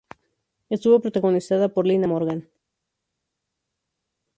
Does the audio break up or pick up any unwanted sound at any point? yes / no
no